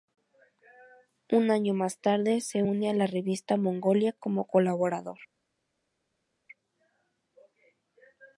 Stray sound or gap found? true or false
false